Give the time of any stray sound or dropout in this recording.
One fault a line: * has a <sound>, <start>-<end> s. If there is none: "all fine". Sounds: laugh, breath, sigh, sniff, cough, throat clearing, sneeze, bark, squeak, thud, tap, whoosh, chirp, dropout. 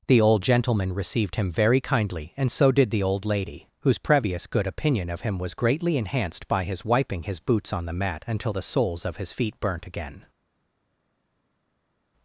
all fine